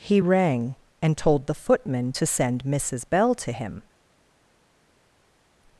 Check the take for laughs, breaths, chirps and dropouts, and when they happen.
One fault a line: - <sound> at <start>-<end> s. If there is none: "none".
none